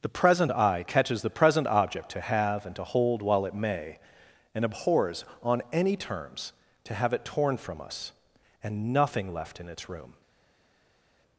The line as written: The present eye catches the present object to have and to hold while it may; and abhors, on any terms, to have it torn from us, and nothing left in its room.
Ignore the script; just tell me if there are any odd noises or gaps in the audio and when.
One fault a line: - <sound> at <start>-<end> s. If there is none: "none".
none